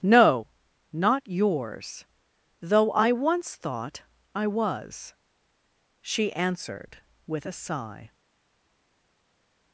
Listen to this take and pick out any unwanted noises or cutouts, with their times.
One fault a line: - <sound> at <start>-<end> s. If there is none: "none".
none